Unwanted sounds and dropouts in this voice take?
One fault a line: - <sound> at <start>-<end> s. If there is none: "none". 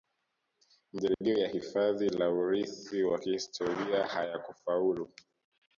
- dropout at 1.1-1.2 s